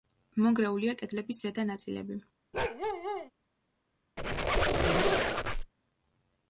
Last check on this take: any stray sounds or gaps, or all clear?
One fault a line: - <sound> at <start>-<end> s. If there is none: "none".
- bark at 2.5-3.3 s
- squeak at 4.2-5.7 s